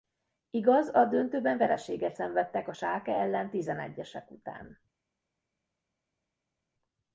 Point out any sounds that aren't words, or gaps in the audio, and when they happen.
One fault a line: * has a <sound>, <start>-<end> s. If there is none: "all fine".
all fine